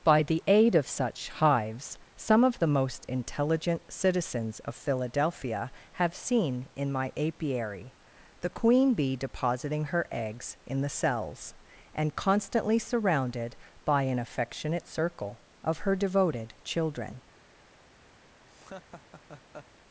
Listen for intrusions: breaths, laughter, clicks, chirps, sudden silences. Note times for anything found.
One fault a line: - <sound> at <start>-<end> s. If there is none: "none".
- laugh at 18.5-19.7 s